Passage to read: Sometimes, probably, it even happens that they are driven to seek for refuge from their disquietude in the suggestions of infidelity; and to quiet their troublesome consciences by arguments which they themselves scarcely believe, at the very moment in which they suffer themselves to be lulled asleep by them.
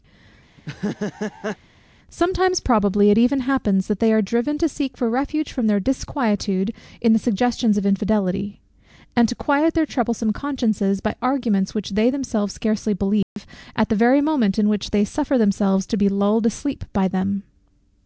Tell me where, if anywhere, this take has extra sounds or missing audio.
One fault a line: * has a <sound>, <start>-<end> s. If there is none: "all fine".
* has a laugh, 0.6-1.6 s
* has a dropout, 13.2-13.4 s